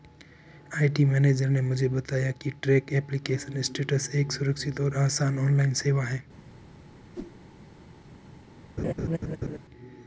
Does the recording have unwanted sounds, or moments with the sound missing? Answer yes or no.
yes